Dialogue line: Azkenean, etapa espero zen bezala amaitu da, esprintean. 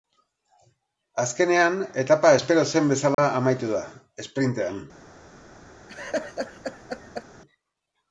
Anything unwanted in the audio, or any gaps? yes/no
yes